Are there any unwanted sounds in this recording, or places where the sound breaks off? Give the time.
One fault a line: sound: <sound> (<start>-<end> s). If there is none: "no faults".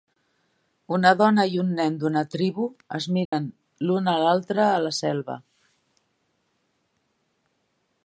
sound: dropout (3.3-3.3 s)